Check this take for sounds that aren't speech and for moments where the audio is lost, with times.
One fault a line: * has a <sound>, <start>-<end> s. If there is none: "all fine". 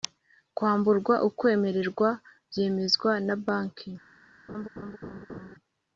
* has a laugh, 4.5-5.5 s